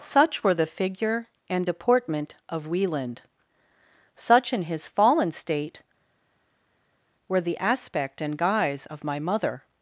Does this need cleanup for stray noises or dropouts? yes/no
no